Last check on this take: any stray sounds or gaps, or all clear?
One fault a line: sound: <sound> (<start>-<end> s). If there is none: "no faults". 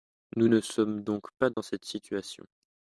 sound: dropout (1.5-1.6 s)